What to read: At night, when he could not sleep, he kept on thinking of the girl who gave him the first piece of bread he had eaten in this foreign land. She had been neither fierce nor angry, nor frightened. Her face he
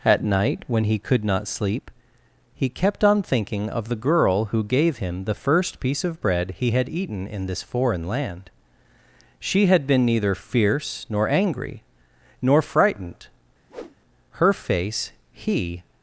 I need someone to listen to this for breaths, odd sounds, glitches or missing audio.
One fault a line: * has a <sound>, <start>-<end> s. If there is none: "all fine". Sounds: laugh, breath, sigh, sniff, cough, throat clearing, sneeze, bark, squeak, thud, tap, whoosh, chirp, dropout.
* has a whoosh, 13.7-14.0 s